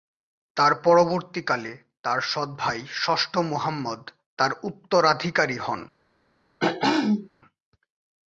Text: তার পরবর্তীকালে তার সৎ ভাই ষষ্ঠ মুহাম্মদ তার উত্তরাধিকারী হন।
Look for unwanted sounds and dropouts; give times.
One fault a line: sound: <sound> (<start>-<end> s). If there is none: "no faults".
sound: throat clearing (6.6-7.3 s)